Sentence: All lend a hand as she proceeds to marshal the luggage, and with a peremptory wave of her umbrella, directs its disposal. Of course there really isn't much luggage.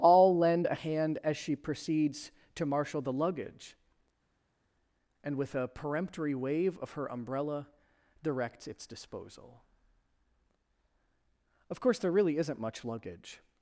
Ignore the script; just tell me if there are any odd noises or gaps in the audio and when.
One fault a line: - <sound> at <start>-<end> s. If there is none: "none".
none